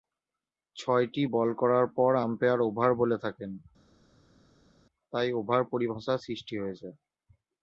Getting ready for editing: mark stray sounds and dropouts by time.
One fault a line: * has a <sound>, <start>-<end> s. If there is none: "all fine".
all fine